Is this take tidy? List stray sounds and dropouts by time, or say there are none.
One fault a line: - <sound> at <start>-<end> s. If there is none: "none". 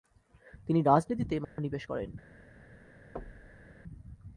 - dropout at 1.4-1.6 s
- thud at 3.2-3.7 s